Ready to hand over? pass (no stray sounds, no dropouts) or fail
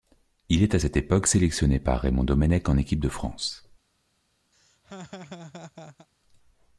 fail